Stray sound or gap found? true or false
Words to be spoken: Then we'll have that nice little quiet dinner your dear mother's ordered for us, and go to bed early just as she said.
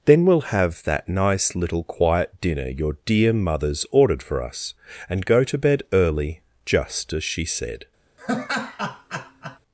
true